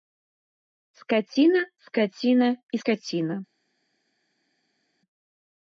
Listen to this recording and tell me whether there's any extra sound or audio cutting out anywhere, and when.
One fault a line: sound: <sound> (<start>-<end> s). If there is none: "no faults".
no faults